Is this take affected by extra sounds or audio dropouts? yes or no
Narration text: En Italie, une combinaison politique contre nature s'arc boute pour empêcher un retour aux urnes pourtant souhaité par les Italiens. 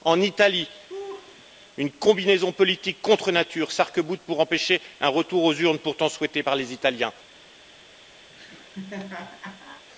yes